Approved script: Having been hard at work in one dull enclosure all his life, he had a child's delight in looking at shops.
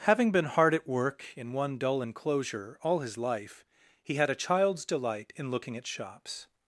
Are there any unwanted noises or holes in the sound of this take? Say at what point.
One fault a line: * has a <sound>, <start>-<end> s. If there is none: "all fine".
all fine